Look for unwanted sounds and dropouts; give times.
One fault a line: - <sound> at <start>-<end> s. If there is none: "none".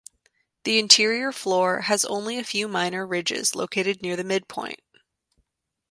none